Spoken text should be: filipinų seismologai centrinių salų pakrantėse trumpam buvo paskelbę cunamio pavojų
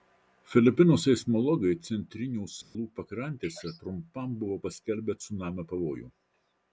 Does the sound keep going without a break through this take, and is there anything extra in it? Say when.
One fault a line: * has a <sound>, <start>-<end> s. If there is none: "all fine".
* has a dropout, 2.6-2.8 s